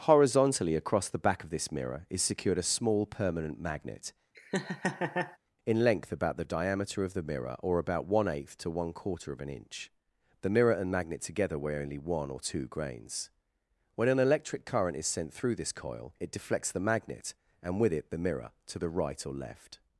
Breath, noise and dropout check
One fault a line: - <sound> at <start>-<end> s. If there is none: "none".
- laugh at 4.3-5.4 s